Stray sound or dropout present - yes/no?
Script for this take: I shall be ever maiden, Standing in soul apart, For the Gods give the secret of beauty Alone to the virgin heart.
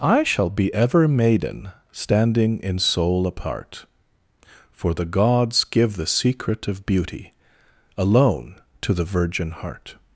no